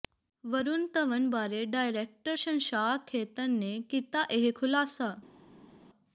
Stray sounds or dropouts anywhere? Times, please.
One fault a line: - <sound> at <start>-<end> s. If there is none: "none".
none